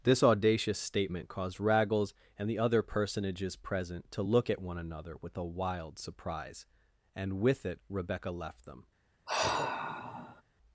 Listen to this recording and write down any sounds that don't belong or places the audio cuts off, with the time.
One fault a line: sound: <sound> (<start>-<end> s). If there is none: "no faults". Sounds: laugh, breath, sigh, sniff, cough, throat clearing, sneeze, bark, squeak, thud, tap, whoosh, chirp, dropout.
sound: sigh (9.3-10.4 s)